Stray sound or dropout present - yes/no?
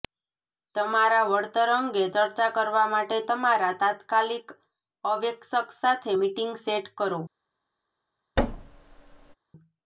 yes